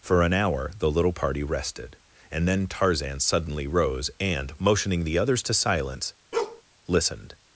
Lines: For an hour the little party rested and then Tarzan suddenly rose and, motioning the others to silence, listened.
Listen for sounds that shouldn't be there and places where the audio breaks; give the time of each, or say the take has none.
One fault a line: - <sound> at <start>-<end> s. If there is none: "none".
- bark at 6.3-6.6 s